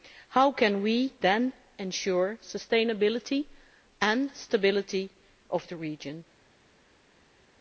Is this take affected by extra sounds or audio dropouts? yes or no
no